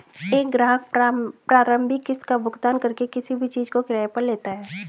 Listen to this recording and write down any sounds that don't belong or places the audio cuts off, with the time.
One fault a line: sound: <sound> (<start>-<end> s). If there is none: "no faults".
no faults